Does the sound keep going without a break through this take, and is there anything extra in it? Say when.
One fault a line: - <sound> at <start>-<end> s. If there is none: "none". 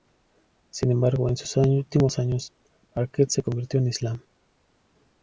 none